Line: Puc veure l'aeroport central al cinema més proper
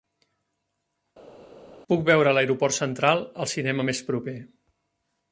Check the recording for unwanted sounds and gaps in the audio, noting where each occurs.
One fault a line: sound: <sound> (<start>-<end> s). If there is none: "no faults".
no faults